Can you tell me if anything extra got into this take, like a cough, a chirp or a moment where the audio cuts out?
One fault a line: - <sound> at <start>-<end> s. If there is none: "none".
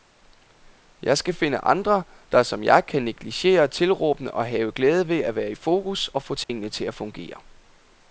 - dropout at 6.4-6.5 s